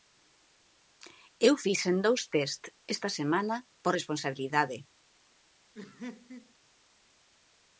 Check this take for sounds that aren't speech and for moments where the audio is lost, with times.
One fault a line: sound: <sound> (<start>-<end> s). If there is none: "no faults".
sound: laugh (5.7-6.5 s)